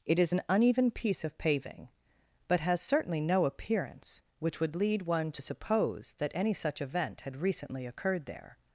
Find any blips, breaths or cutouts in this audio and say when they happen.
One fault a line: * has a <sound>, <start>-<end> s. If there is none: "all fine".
all fine